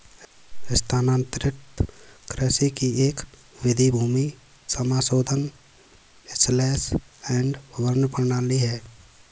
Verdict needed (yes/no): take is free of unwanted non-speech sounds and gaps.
yes